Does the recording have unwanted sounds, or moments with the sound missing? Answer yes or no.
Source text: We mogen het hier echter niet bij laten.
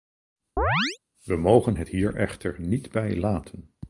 yes